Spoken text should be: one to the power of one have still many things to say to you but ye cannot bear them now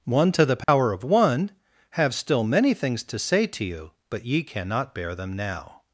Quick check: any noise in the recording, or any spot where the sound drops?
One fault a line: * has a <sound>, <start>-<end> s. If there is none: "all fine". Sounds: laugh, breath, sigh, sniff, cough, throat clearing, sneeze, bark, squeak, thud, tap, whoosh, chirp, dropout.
* has a dropout, 0.6-0.7 s